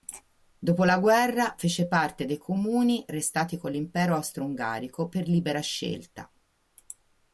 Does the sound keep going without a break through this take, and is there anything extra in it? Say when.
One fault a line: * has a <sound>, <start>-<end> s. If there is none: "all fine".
all fine